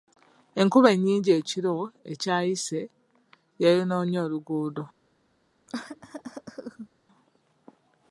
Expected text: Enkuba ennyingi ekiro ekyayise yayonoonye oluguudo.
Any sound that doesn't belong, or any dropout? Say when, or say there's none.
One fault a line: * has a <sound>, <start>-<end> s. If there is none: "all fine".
* has a cough, 5.7-6.9 s